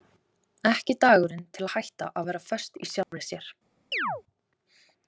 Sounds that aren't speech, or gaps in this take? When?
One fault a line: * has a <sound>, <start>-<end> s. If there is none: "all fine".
* has a dropout, 3.0-3.1 s
* has a chirp, 3.9-4.2 s